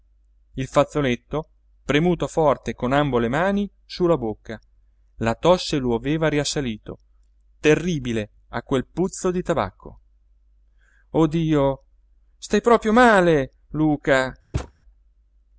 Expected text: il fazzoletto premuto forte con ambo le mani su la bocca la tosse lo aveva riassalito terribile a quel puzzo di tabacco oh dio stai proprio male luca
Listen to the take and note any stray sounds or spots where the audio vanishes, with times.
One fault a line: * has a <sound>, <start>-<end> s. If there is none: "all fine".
* has a thud, 14.5-14.7 s